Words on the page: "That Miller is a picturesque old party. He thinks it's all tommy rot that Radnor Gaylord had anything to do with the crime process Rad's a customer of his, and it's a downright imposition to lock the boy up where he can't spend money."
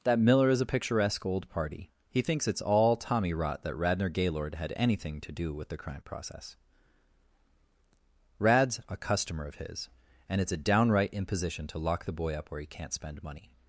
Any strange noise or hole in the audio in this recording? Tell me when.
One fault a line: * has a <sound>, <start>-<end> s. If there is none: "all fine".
all fine